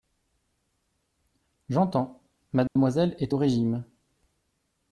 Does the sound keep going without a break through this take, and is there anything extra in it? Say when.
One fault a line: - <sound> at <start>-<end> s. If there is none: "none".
- dropout at 2.7-2.8 s